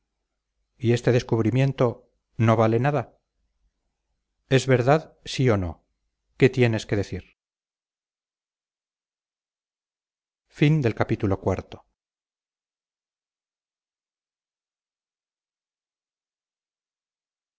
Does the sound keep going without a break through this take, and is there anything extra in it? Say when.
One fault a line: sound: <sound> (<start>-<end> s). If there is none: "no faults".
no faults